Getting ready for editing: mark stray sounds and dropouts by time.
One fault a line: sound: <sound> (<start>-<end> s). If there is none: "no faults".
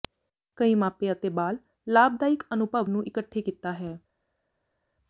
no faults